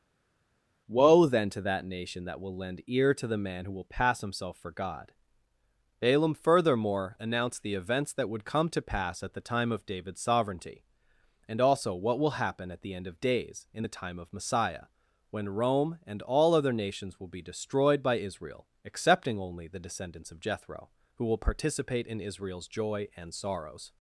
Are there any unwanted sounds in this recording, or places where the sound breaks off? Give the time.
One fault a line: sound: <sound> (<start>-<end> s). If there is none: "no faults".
no faults